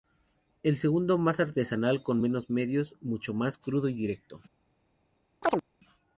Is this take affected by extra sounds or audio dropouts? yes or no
yes